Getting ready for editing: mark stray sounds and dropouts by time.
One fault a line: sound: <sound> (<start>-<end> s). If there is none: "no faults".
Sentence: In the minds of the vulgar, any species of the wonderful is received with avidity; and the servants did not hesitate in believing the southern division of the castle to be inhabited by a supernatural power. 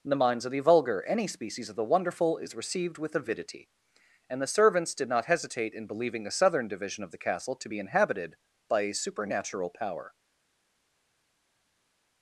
no faults